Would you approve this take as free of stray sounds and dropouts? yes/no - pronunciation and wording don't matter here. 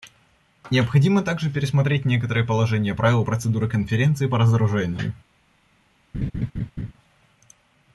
no